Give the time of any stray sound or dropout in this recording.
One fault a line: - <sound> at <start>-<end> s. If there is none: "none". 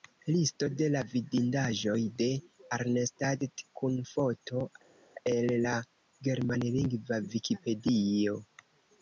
none